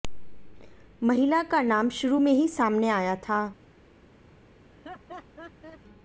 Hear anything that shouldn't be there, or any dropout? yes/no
yes